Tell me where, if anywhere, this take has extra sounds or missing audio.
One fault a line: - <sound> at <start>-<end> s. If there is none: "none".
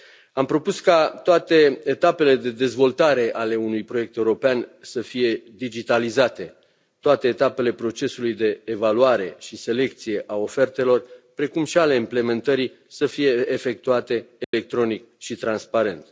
- dropout at 14.4-14.5 s